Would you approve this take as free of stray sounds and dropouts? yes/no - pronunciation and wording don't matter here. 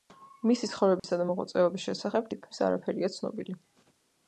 no